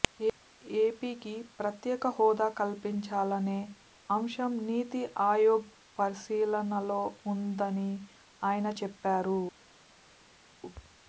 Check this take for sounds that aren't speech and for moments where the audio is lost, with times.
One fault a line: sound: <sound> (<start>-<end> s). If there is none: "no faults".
no faults